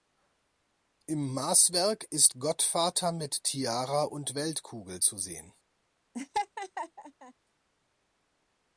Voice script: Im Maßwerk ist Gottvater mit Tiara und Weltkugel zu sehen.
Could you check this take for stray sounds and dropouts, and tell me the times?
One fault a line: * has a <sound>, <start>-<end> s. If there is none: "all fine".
* has a laugh, 6.1-7.3 s